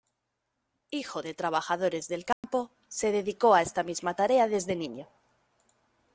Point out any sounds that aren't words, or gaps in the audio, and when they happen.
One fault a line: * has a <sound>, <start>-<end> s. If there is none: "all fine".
* has a dropout, 2.3-2.4 s